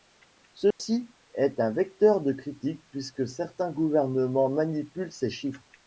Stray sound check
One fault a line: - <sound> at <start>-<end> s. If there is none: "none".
- dropout at 0.7-0.8 s